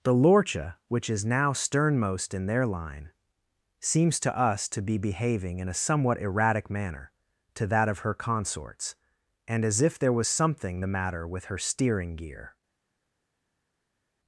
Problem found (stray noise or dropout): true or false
false